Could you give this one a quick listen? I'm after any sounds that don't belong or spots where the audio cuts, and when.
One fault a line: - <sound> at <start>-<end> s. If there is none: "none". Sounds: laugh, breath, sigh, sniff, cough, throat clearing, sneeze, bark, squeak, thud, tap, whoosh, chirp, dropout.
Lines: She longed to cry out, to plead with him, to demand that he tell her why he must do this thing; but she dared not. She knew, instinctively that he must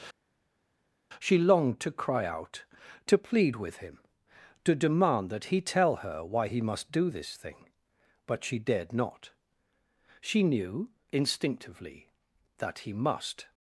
none